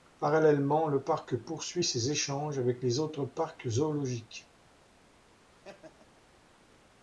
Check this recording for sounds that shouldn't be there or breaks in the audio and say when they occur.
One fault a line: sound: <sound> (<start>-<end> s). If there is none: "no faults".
sound: laugh (5.5-6.2 s)